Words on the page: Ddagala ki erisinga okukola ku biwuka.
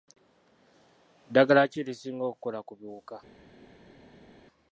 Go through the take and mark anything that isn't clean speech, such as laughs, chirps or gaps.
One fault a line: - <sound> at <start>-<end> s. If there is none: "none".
none